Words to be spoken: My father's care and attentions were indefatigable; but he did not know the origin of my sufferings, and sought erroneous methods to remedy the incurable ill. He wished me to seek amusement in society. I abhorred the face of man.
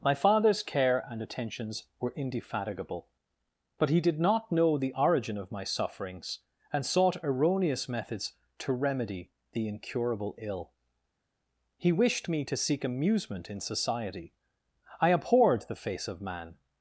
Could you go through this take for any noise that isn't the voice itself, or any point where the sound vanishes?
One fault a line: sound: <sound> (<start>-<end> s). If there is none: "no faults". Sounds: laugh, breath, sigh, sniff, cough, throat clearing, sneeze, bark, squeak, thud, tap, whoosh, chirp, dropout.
no faults